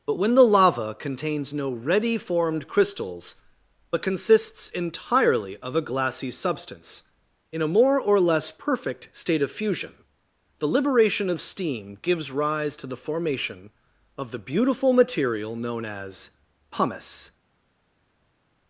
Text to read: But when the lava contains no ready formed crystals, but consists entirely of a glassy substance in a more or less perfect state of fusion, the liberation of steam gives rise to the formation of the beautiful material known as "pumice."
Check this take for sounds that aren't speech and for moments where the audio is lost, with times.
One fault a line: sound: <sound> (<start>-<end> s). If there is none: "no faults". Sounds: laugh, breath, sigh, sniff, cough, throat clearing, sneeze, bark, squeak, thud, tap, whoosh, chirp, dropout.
no faults